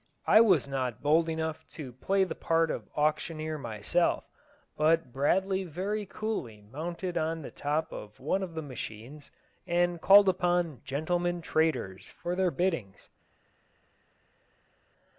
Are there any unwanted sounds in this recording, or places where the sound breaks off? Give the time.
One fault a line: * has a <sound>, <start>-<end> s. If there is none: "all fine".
all fine